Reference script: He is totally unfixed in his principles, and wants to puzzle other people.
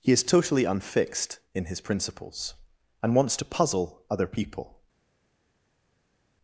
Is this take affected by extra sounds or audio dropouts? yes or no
no